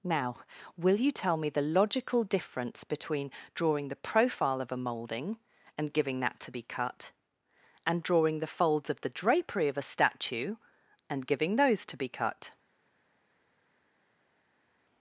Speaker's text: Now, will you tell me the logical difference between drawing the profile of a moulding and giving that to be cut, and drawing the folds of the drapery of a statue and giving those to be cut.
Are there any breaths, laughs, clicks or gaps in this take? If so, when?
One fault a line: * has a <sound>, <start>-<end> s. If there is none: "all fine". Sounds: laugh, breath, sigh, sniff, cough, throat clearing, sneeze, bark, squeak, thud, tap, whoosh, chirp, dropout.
all fine